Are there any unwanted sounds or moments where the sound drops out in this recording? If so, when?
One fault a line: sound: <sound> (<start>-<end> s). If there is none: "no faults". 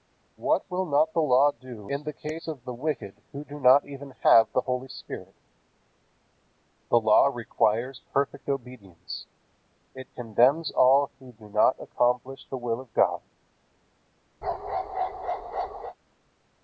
sound: bark (14.4-16.0 s)